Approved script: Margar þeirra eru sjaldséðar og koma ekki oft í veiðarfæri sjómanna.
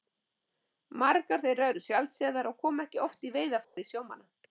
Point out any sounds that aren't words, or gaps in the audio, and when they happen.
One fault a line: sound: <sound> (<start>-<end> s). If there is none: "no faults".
sound: dropout (3.6-3.8 s)